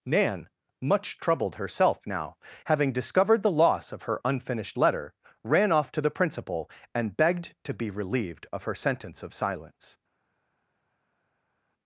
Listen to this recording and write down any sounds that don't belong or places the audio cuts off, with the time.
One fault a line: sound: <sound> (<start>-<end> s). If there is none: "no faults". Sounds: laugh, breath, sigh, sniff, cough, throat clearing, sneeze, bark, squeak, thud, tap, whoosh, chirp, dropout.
no faults